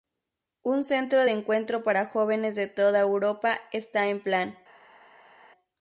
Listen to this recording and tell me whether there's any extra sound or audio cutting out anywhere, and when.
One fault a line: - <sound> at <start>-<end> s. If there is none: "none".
none